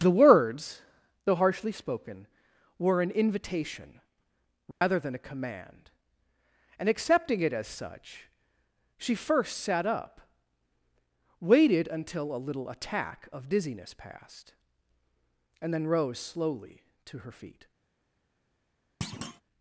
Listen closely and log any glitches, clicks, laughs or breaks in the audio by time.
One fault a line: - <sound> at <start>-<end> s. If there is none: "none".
- dropout at 4.7-4.8 s
- thud at 19.0-19.4 s